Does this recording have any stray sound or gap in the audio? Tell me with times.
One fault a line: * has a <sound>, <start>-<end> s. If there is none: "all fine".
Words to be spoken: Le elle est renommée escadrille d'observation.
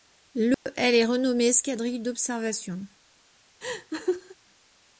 * has a dropout, 0.5-0.7 s
* has a laugh, 3.6-4.4 s